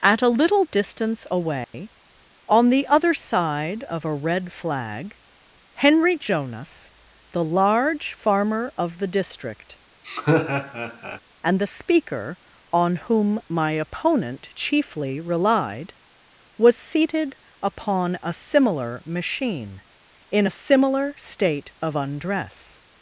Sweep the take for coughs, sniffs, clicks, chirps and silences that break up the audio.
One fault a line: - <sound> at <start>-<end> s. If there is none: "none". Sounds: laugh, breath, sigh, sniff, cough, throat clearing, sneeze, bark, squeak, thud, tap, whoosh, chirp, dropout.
- dropout at 1.6-1.7 s
- laugh at 10.0-11.2 s